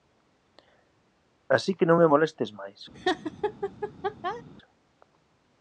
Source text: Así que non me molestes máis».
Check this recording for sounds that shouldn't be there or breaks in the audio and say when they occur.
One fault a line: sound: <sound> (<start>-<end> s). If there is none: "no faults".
sound: laugh (2.9-4.4 s)